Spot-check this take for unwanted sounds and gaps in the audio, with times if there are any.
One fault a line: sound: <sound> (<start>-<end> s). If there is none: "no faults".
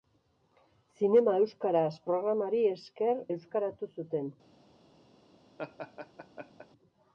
sound: laugh (5.6-6.7 s)